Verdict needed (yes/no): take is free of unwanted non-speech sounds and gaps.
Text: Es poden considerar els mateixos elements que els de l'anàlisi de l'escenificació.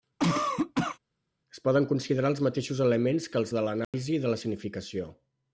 no